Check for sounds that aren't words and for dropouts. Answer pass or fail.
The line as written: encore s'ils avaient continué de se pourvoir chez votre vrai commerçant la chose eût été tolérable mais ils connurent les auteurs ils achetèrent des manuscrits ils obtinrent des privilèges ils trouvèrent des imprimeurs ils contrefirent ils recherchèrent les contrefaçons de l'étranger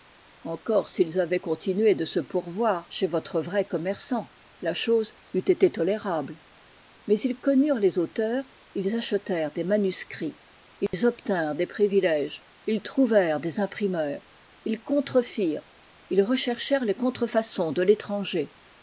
fail